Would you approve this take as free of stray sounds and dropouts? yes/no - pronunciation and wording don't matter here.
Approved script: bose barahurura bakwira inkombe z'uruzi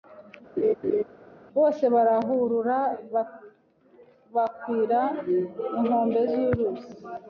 no